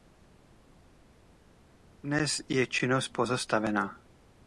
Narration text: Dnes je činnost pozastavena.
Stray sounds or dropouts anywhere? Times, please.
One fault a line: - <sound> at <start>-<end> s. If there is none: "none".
none